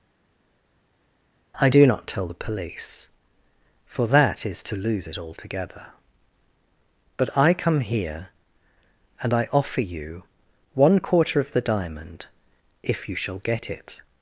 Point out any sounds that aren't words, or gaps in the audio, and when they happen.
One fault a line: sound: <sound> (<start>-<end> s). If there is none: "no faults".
no faults